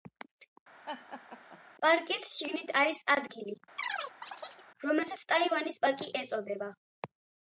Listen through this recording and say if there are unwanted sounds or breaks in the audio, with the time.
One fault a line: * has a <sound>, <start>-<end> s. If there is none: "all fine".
* has a laugh, 0.9-1.6 s
* has a chirp, 3.8-4.6 s